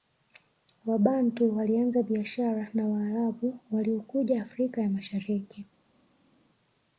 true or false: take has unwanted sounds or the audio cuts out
false